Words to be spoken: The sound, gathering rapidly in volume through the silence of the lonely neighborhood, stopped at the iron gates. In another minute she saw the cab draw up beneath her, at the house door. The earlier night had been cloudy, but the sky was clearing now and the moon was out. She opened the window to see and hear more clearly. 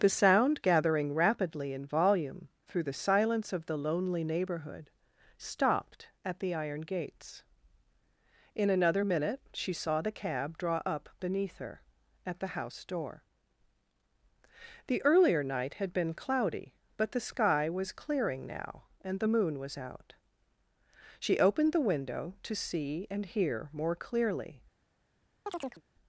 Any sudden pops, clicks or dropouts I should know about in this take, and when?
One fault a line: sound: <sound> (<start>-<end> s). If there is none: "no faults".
sound: chirp (25.5-25.8 s)